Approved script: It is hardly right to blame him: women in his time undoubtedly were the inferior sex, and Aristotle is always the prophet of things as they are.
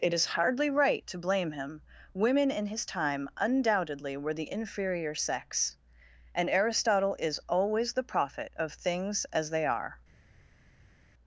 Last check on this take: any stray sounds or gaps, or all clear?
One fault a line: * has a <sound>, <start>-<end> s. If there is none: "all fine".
all fine